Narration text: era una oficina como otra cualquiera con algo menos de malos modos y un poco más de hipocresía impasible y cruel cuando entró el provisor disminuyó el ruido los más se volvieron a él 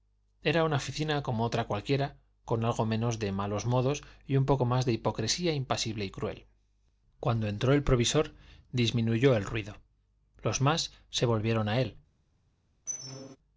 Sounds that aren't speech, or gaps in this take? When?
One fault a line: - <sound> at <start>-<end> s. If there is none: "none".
- squeak at 12.9-13.4 s